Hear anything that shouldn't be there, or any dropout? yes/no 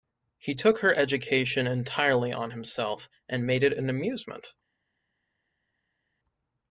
no